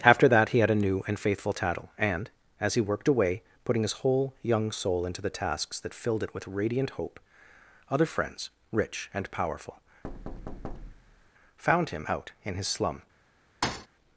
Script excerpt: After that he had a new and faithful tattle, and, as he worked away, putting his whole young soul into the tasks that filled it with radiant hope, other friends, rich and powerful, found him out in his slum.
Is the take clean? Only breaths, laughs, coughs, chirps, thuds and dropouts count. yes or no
no